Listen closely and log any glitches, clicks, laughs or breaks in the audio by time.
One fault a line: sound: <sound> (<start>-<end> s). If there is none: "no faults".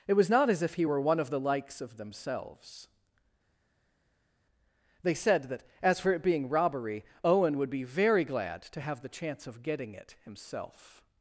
no faults